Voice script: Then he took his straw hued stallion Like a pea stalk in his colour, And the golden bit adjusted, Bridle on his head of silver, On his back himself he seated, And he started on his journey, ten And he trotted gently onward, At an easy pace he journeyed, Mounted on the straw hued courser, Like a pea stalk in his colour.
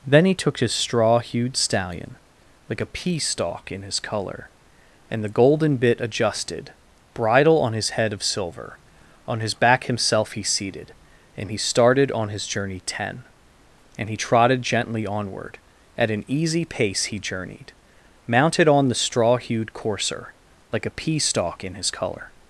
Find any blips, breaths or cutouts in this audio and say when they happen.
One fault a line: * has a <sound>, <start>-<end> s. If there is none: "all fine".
all fine